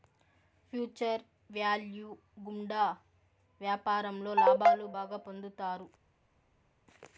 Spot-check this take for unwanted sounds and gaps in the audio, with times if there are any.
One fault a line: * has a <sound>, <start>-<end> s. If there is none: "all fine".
all fine